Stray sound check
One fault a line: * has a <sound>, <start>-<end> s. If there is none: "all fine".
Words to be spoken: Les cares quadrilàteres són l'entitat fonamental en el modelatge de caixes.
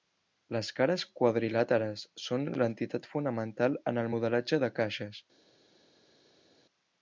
all fine